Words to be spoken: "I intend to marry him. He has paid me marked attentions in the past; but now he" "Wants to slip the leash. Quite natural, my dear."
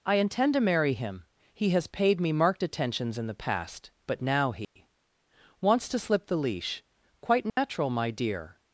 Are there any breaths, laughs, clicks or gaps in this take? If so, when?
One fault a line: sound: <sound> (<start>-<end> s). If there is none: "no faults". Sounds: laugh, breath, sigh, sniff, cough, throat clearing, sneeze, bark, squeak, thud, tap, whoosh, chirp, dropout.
sound: dropout (4.6-4.8 s)
sound: dropout (7.5-7.6 s)